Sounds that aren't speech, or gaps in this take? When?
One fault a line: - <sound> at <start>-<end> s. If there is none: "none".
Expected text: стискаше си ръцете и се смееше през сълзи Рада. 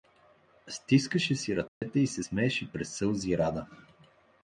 - dropout at 1.7-1.8 s